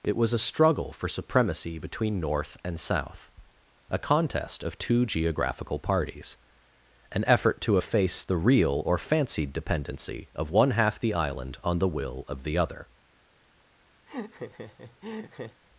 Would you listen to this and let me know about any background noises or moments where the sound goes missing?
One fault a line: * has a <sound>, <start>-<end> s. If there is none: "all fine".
* has a laugh, 14.1-15.6 s